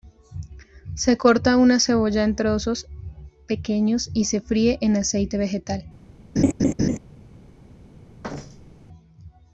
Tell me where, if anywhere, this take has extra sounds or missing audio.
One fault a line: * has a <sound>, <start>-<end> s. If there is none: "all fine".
* has a laugh, 6.4-7.0 s
* has a thud, 8.2-8.9 s